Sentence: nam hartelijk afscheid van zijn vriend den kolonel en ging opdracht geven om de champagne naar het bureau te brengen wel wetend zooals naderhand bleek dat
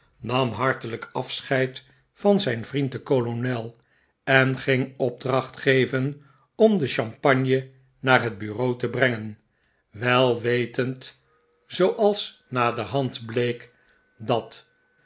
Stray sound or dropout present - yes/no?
no